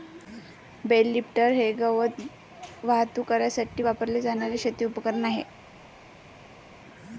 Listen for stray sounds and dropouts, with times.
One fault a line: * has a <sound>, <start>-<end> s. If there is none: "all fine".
all fine